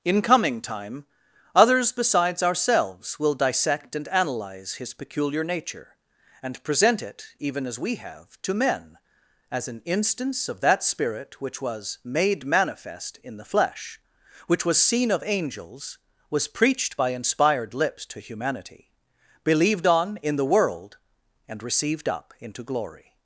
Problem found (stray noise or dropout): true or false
false